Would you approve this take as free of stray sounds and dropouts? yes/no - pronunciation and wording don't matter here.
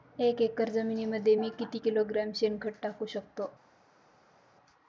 yes